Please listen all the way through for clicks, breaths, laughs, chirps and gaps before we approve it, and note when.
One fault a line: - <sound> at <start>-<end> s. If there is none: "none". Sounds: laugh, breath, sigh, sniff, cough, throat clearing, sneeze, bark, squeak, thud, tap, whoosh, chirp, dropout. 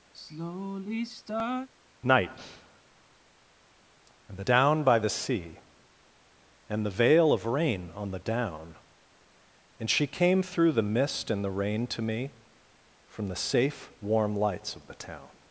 - sigh at 0.1-1.7 s